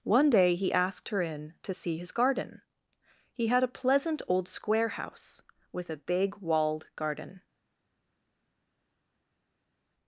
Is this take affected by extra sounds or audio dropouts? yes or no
no